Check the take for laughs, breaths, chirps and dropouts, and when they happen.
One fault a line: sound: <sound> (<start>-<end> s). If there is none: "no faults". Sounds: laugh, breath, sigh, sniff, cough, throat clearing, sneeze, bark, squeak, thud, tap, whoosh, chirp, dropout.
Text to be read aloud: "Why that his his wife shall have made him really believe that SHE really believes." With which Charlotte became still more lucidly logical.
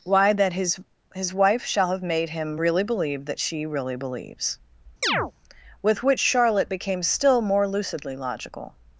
sound: chirp (5.0-5.3 s)